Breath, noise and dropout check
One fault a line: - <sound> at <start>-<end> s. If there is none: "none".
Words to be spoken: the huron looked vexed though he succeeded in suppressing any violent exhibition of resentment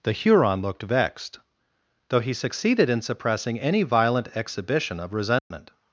- dropout at 5.4-5.5 s